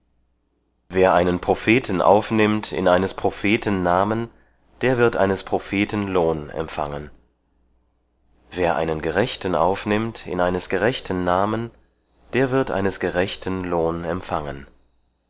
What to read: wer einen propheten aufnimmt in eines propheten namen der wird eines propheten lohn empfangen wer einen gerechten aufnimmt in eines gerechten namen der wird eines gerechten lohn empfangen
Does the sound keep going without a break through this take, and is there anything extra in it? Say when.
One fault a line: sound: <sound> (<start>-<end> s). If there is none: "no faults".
no faults